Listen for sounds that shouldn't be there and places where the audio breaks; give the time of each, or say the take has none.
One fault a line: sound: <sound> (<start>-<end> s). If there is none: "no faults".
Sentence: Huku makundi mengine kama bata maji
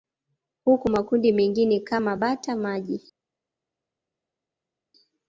no faults